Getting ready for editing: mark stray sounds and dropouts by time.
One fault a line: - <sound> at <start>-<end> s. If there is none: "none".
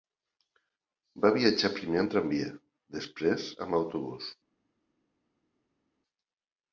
none